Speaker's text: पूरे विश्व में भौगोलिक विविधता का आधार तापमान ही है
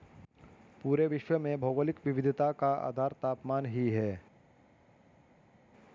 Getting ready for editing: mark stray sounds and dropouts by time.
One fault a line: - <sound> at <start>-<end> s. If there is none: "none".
none